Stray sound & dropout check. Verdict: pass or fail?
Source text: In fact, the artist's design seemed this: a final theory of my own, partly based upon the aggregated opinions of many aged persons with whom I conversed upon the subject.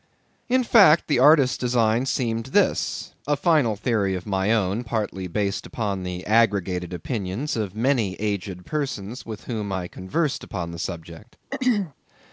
fail